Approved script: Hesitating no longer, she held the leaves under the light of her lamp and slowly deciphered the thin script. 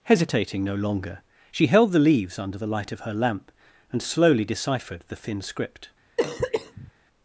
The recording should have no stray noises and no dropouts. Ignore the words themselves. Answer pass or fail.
fail